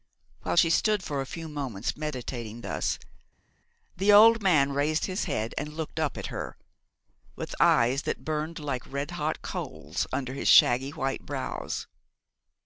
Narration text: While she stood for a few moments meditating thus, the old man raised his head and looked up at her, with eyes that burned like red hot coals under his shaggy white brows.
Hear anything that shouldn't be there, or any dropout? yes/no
no